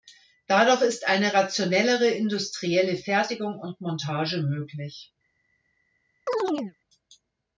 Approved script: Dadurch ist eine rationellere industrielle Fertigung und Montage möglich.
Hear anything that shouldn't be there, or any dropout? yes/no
yes